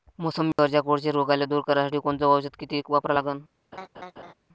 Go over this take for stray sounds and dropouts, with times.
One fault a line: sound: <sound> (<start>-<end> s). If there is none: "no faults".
sound: dropout (0.5-0.6 s)
sound: laugh (3.7-4.3 s)